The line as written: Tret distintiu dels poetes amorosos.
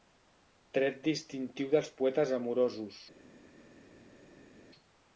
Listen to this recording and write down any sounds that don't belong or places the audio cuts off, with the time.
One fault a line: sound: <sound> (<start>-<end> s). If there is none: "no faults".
no faults